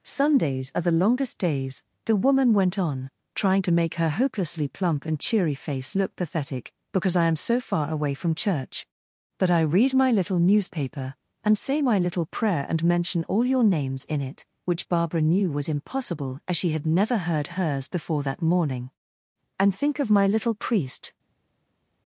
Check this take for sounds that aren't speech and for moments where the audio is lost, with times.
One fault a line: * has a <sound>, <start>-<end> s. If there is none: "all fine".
all fine